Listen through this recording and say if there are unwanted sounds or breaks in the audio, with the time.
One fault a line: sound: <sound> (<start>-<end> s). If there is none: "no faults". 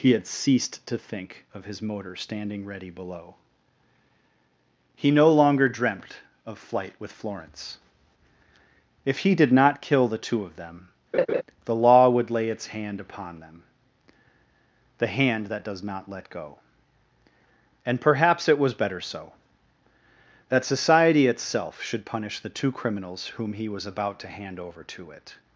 sound: laugh (11.1-11.4 s)